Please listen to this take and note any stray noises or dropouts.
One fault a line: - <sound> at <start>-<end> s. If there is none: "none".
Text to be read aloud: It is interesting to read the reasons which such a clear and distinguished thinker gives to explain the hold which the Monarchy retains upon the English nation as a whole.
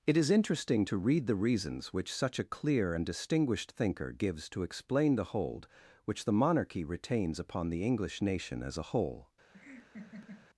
- laugh at 9.5-10.5 s